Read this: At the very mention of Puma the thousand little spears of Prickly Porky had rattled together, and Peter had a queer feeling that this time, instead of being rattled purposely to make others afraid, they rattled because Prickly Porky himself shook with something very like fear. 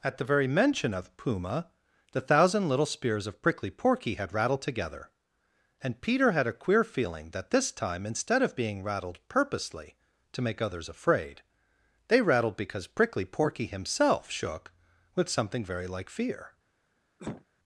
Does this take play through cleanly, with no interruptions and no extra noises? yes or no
no